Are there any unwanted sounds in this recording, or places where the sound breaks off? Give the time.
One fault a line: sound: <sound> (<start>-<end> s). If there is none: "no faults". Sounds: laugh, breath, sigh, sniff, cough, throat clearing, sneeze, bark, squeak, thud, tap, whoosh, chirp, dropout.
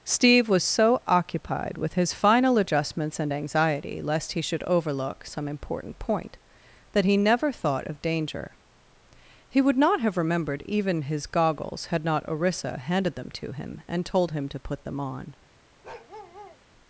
sound: bark (15.8-16.6 s)